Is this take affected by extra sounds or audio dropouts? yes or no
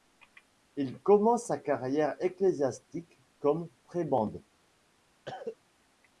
yes